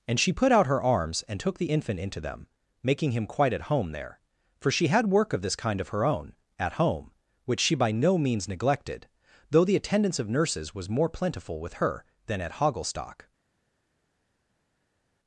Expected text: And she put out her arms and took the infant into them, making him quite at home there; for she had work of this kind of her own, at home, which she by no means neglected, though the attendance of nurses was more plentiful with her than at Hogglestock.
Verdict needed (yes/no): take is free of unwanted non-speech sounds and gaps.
yes